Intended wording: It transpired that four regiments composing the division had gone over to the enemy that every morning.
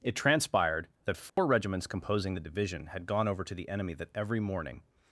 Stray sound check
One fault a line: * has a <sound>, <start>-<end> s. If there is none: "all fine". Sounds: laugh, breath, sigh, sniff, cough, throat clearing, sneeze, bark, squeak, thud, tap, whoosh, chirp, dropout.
* has a dropout, 1.3-1.4 s